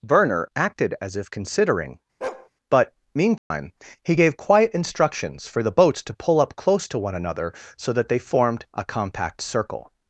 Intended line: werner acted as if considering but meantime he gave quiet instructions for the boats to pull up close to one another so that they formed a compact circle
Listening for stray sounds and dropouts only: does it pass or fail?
fail